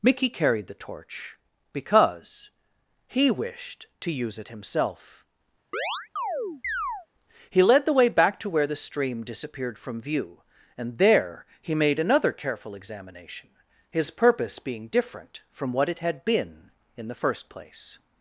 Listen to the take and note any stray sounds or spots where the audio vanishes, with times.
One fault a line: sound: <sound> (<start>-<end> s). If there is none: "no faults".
sound: chirp (5.7-7.1 s)